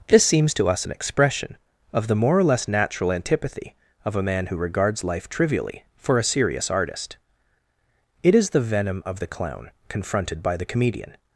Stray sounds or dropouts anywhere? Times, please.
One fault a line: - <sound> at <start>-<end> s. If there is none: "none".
none